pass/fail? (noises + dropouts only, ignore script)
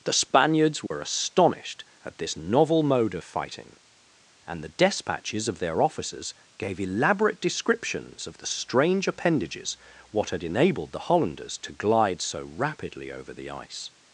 fail